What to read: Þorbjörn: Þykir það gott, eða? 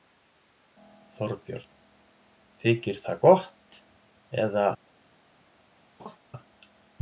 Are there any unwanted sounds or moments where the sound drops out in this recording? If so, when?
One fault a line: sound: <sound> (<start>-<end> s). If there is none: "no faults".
sound: laugh (6.0-6.2 s)